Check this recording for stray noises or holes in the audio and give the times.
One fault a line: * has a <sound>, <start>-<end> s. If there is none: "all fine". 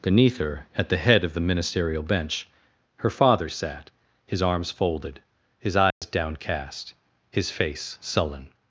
* has a dropout, 5.9-6.0 s